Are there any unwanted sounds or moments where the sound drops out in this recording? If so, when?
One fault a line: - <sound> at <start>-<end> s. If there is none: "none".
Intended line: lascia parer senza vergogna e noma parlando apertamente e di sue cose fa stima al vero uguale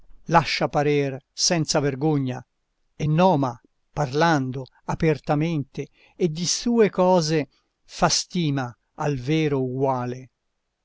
none